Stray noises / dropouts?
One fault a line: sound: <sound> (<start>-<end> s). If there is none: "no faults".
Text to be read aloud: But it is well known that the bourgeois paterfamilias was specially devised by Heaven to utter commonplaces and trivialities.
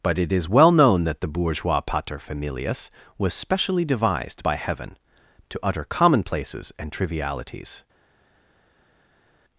no faults